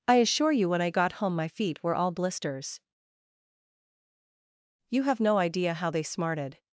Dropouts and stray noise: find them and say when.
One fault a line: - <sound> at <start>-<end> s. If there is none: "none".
none